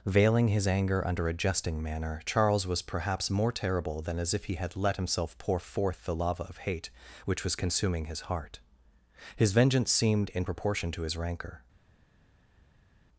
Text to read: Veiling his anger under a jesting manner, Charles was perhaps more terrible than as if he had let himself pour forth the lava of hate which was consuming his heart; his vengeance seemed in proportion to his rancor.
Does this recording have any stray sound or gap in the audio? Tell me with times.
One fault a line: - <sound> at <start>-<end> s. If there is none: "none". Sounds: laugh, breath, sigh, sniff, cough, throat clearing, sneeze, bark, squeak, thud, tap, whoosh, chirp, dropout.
none